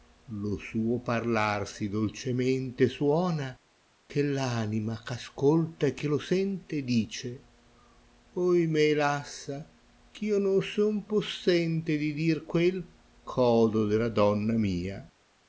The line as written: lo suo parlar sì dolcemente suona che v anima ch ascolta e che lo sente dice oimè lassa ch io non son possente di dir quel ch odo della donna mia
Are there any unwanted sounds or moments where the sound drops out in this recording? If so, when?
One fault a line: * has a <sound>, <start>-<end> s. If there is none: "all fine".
all fine